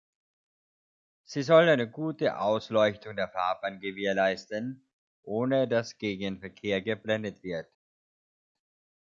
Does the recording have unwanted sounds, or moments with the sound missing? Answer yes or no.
no